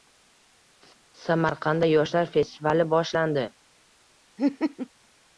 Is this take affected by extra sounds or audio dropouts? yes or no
yes